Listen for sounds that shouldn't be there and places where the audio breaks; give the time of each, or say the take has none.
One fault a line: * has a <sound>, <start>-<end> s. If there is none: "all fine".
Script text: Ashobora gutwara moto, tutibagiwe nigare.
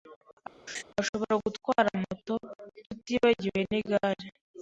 * has a laugh, 0.7-0.8 s